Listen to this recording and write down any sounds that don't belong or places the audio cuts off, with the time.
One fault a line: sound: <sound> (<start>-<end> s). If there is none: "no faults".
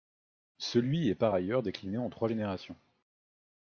no faults